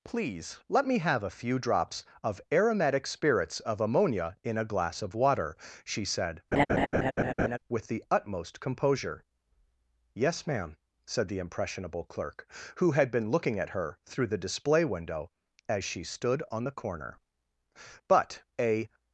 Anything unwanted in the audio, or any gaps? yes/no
yes